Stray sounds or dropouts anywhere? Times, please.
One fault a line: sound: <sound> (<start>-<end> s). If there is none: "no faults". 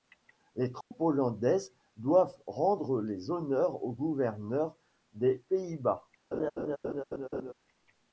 sound: dropout (0.8-0.9 s)
sound: laugh (6.3-7.5 s)